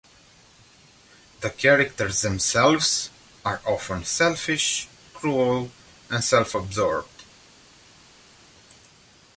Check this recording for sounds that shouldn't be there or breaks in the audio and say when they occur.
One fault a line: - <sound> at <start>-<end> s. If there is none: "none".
none